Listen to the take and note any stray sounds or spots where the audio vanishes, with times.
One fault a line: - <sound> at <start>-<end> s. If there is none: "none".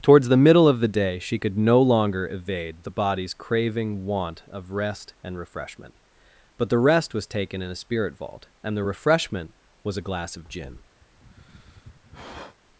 - sigh at 11.0-12.6 s